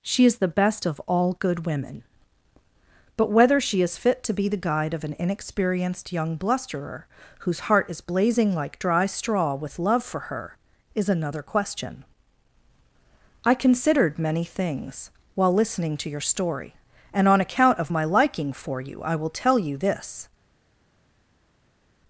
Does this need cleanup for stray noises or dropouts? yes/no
no